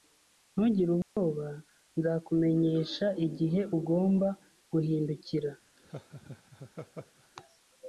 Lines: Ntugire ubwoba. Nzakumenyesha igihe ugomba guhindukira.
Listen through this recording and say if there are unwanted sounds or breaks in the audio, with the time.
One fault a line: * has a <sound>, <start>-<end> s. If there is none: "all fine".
* has a dropout, 1.0-1.2 s
* has a laugh, 5.8-7.3 s